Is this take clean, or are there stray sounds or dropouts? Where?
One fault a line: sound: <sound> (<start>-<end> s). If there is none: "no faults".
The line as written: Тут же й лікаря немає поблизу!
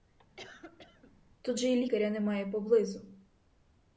sound: cough (0.4-1.2 s)